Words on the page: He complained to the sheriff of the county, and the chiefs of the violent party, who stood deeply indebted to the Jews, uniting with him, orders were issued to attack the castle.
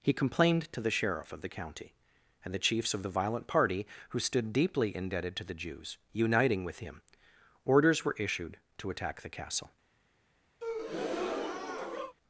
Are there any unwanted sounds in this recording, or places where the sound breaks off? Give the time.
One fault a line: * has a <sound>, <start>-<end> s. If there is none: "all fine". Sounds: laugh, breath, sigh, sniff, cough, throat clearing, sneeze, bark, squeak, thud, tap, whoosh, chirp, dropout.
* has a breath, 10.6-12.2 s